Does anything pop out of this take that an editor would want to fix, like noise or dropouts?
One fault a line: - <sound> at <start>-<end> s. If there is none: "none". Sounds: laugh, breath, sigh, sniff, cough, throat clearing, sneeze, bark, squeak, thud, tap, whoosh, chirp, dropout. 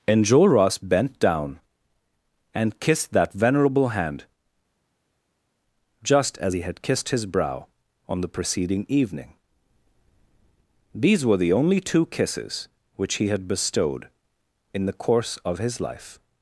none